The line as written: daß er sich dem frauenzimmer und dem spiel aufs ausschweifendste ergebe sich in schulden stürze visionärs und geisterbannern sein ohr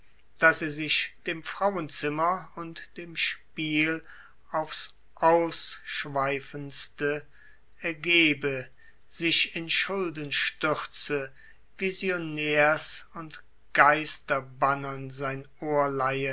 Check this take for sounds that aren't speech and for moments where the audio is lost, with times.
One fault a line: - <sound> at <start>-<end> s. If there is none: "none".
none